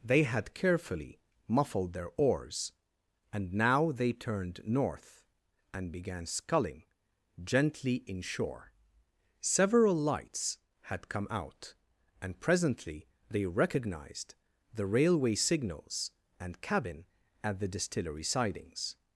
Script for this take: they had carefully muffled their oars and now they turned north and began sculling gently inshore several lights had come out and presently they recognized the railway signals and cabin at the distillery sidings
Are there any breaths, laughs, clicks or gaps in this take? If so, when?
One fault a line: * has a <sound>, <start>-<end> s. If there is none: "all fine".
all fine